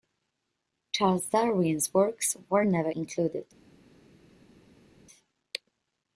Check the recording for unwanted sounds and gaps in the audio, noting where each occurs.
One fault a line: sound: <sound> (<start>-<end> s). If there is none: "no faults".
no faults